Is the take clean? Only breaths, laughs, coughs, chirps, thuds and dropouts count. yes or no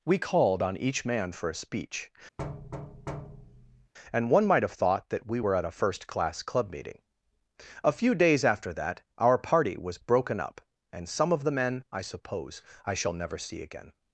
no